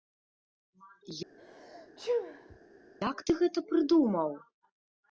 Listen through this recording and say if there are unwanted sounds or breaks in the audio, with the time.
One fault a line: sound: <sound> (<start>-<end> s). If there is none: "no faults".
sound: sneeze (1.4-2.6 s)